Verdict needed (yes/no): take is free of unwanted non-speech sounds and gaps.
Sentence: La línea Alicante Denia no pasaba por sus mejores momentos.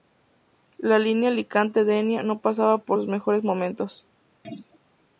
no